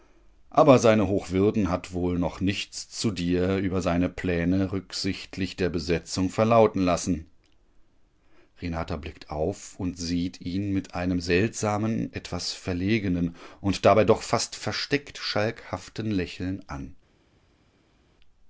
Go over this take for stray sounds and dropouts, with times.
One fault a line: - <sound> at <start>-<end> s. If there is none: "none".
none